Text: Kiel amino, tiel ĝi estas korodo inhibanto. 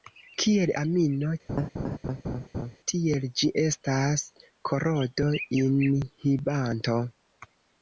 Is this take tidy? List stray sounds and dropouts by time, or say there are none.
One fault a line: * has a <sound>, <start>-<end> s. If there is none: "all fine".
* has a laugh, 1.5-2.8 s